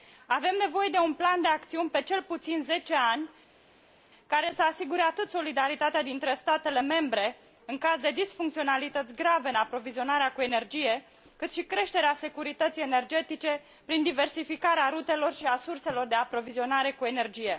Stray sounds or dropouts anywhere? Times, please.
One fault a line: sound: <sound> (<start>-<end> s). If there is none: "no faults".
no faults